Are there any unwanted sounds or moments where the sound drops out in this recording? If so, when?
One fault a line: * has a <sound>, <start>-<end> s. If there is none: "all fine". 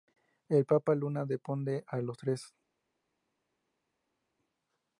all fine